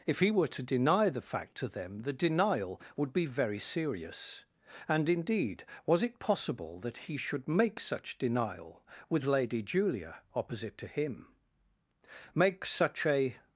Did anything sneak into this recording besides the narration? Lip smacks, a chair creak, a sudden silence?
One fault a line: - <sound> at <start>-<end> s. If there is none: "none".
none